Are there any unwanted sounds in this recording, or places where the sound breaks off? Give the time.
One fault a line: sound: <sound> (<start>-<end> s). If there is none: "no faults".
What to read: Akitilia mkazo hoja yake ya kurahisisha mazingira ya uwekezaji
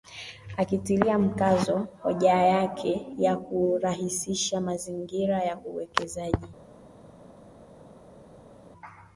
no faults